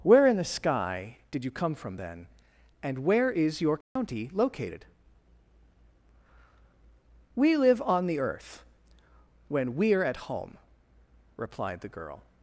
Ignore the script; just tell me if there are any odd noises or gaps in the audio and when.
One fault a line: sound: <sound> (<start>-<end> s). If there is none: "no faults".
sound: dropout (3.8-4.0 s)